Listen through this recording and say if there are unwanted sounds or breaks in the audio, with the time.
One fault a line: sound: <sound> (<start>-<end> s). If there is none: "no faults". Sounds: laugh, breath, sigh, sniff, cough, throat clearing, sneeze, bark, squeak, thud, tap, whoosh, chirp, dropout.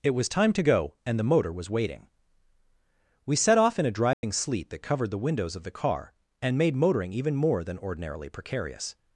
sound: dropout (4.1-4.2 s)